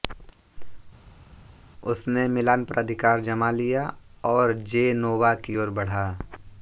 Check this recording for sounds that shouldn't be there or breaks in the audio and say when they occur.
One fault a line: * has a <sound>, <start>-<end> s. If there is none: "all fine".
all fine